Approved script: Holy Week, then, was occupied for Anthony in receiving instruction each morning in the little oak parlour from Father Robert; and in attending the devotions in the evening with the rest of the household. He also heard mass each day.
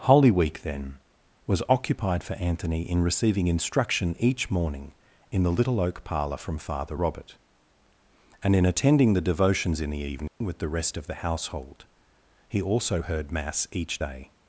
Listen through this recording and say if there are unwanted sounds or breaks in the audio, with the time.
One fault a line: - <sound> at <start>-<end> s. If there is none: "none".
- dropout at 10.3-10.4 s